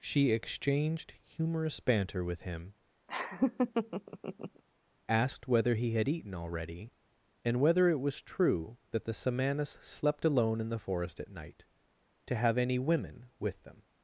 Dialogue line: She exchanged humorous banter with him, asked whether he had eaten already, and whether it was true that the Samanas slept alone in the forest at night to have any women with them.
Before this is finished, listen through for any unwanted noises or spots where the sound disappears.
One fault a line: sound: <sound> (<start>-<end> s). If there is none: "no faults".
sound: laugh (3.1-4.6 s)